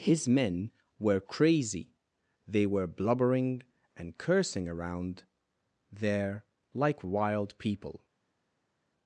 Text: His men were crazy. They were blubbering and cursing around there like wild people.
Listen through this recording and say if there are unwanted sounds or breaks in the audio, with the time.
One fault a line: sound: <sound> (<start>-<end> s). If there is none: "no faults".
no faults